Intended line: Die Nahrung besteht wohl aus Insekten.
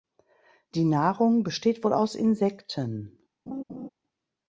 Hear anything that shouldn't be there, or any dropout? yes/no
yes